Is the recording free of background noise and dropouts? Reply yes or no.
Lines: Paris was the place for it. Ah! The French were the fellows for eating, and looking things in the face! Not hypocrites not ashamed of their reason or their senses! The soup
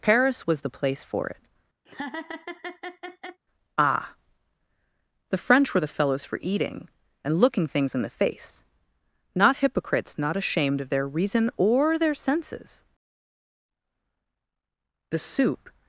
no